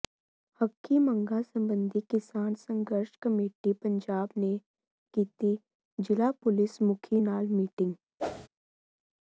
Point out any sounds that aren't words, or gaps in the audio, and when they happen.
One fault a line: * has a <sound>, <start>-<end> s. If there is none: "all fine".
* has a whoosh, 8.2-8.5 s